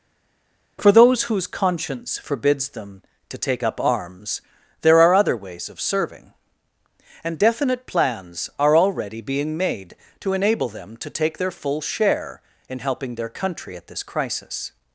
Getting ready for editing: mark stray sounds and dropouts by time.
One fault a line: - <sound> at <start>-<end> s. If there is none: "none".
none